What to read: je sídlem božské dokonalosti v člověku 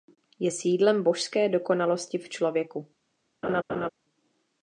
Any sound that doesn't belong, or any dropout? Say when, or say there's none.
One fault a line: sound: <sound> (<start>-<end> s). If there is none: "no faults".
sound: laugh (3.4-3.9 s)